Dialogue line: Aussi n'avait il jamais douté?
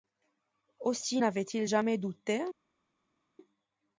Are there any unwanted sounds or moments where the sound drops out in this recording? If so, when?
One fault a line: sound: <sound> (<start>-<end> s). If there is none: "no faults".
no faults